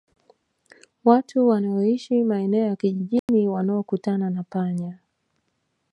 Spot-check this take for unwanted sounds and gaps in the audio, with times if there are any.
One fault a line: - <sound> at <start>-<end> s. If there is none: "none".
- dropout at 3.2-3.3 s